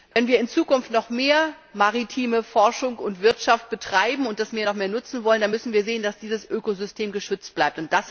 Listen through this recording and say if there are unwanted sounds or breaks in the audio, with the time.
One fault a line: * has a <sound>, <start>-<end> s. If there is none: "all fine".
* has a dropout, 0.1-0.2 s